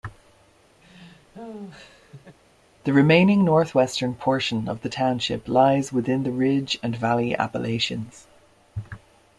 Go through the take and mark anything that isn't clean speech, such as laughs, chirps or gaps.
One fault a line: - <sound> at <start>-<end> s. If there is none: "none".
- laugh at 0.8-2.4 s